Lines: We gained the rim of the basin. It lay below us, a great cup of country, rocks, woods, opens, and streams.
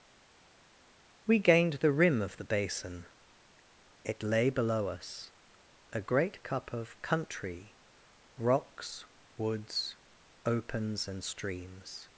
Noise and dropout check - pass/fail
pass